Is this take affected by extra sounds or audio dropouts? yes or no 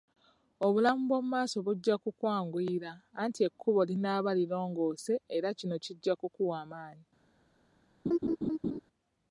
yes